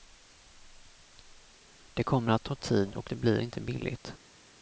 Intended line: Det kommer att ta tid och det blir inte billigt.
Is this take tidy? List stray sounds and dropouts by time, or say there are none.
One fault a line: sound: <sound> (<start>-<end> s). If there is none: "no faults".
no faults